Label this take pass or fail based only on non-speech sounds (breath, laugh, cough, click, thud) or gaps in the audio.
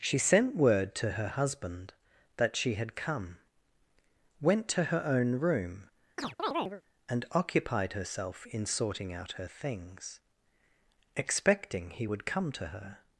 fail